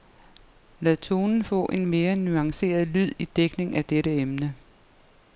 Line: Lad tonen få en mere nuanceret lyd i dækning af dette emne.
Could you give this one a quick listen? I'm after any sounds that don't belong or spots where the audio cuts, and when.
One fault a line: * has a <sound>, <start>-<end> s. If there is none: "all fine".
all fine